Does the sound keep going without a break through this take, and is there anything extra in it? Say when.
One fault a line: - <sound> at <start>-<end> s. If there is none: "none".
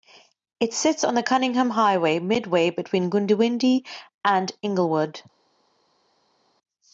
none